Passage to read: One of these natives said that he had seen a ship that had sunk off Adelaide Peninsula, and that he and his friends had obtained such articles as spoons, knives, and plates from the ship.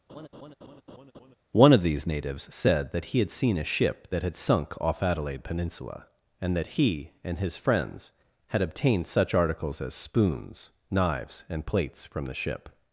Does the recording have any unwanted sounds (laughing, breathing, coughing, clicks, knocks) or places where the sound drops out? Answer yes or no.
yes